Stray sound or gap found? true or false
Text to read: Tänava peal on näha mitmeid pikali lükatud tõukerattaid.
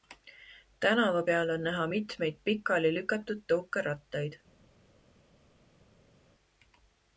false